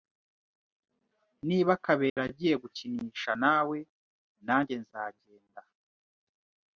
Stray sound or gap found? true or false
true